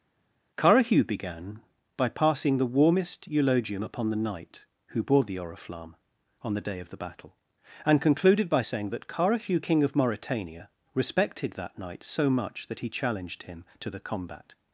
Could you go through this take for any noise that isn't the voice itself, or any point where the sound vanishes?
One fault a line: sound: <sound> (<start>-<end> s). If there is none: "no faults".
no faults